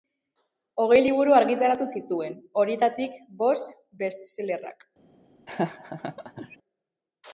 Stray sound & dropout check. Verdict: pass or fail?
fail